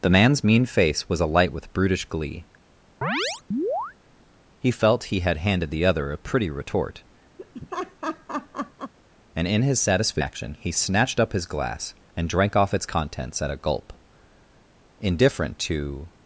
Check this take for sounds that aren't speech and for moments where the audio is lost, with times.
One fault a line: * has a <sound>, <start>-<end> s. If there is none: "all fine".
* has a chirp, 3.0-3.9 s
* has a laugh, 7.4-8.9 s